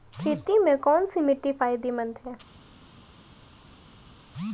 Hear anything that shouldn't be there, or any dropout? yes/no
no